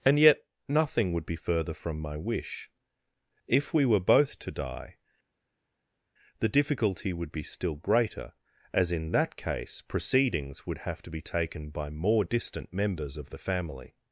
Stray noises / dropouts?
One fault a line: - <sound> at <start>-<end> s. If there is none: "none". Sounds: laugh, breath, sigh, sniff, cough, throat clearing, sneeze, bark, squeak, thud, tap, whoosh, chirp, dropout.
none